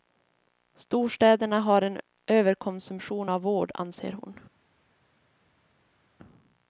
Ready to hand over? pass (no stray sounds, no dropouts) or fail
pass